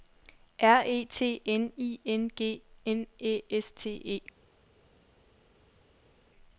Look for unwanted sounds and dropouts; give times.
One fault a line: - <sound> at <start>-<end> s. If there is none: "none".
none